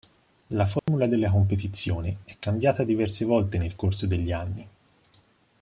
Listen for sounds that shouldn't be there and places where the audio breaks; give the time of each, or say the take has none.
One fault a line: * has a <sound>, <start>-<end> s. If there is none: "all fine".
* has a dropout, 0.8-0.9 s